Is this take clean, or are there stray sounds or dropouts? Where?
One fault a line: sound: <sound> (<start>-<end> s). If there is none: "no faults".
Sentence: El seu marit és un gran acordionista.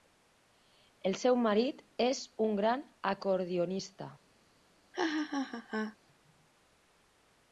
sound: laugh (4.9-6.0 s)